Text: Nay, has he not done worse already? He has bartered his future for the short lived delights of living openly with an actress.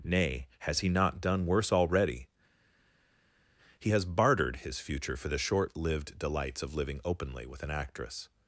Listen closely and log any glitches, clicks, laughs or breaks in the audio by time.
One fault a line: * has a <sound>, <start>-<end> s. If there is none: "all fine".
all fine